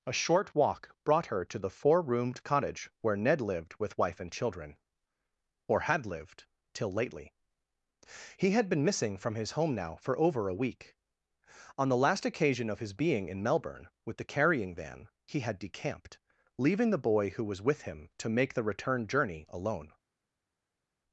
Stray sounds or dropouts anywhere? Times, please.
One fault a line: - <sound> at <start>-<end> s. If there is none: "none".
none